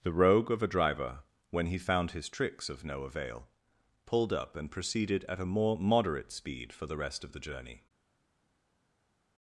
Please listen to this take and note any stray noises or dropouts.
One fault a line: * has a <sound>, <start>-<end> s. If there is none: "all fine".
all fine